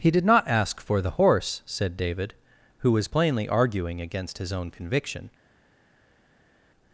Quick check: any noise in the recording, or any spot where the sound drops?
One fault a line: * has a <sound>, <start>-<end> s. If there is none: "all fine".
all fine